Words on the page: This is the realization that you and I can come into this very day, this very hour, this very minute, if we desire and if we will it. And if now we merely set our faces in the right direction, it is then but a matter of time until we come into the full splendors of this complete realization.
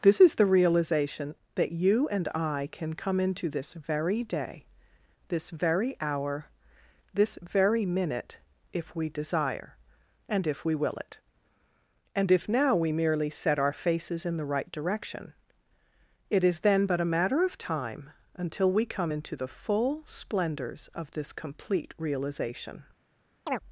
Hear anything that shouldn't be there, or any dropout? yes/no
yes